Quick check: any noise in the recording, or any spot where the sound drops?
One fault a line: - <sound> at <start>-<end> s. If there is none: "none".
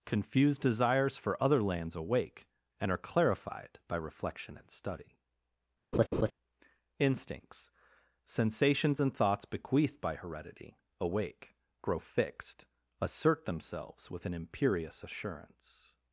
- laugh at 5.9-6.3 s